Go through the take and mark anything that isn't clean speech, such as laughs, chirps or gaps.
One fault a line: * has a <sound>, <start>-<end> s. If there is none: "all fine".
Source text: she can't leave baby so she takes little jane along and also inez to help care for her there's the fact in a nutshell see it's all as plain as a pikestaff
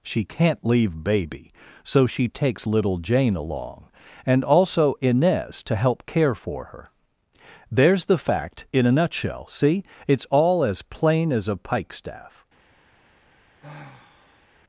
* has a sigh, 13.6-14.5 s